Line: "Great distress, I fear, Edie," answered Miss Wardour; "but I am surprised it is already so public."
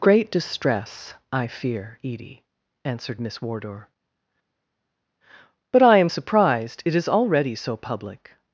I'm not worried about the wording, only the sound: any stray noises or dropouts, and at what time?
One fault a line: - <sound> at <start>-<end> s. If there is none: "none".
none